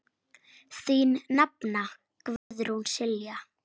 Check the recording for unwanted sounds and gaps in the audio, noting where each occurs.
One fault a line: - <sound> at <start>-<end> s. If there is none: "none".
- dropout at 2.4-2.5 s